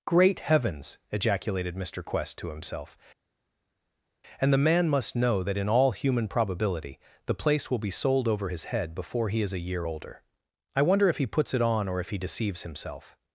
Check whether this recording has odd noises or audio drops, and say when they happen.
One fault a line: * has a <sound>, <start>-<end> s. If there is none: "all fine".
all fine